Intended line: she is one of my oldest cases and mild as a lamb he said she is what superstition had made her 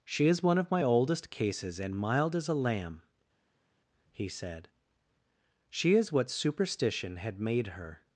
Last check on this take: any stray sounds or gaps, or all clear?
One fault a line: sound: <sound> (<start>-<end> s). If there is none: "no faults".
no faults